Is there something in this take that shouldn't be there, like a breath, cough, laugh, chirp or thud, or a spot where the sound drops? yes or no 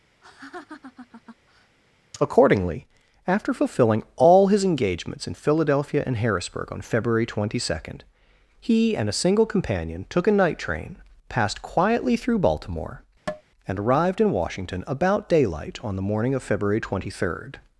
yes